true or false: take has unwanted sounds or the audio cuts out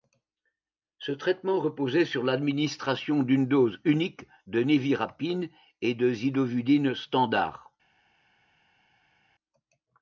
false